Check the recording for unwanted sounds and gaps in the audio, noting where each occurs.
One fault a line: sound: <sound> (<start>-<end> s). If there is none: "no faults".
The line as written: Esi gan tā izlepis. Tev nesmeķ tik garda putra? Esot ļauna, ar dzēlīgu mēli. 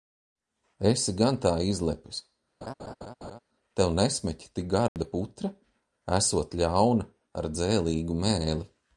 sound: laugh (2.6-3.4 s)
sound: dropout (4.9-5.0 s)